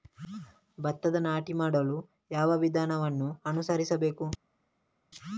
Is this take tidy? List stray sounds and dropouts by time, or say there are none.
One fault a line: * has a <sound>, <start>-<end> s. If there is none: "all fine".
all fine